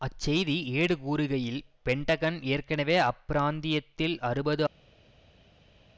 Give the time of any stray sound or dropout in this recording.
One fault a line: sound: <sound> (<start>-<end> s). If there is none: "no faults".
no faults